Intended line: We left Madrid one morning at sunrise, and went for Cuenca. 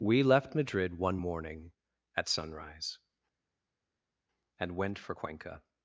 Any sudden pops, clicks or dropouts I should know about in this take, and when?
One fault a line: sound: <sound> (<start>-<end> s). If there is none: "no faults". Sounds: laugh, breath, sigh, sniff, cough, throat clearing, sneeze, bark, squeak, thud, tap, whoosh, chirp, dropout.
no faults